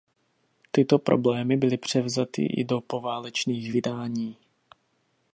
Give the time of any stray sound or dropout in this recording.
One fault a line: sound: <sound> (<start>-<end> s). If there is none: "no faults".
no faults